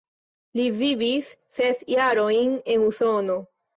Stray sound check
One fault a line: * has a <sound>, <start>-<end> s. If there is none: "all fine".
all fine